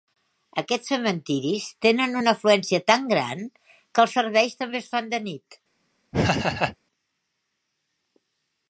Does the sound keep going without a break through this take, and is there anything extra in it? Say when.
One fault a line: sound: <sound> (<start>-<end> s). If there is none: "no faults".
sound: laugh (6.1-6.8 s)